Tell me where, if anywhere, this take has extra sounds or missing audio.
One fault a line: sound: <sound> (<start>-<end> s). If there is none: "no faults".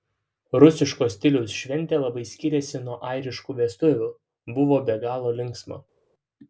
no faults